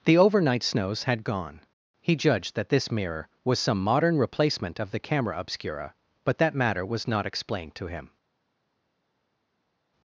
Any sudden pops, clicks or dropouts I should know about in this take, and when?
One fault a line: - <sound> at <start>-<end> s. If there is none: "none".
none